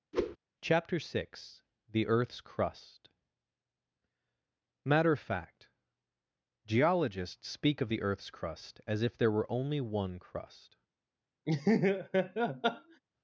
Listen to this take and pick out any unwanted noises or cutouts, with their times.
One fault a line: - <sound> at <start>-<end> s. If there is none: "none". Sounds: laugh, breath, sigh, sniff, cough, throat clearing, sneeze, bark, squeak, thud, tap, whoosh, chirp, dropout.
- whoosh at 0.1-0.4 s
- laugh at 11.5-13.0 s